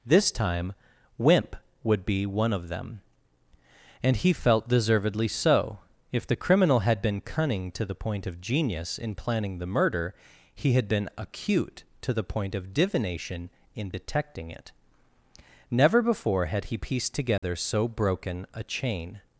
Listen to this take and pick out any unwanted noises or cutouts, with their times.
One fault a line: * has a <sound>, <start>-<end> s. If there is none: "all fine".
* has a dropout, 17.4-17.4 s